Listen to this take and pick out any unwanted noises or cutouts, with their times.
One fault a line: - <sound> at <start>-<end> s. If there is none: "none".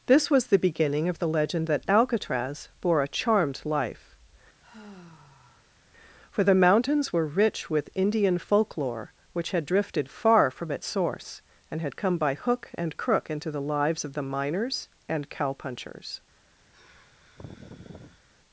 - sigh at 4.6-5.8 s
- sigh at 16.7-18.3 s